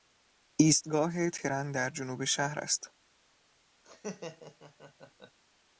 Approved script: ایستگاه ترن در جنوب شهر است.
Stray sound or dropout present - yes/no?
yes